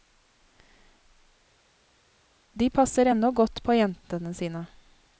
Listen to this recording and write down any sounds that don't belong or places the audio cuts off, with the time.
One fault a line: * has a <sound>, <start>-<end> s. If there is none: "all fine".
all fine